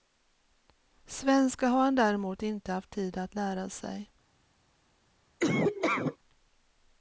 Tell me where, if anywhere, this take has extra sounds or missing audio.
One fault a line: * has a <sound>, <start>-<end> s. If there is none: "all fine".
* has a laugh, 5.4-6.2 s